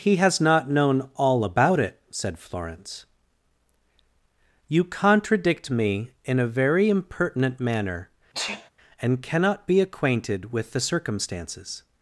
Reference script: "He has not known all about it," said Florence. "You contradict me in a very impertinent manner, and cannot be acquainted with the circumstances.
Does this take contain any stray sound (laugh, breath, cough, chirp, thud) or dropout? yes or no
yes